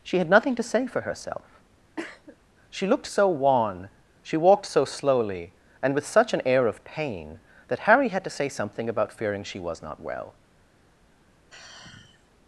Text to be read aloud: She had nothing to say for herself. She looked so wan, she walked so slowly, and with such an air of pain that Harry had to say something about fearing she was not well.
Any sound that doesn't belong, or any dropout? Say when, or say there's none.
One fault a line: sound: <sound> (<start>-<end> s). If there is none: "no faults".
sound: cough (2.0-2.4 s)
sound: sigh (11.5-12.3 s)